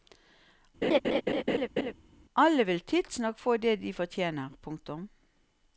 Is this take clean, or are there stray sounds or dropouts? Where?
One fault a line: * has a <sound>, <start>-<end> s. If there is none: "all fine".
* has a laugh, 0.8-1.9 s